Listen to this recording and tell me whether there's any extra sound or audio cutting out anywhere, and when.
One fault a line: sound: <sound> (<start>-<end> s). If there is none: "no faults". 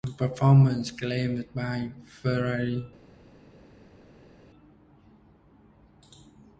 no faults